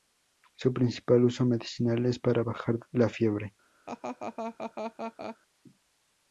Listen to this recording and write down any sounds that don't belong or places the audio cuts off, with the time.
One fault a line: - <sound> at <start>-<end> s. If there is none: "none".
- laugh at 3.9-5.4 s